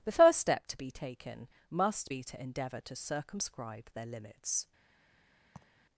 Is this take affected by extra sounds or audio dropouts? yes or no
yes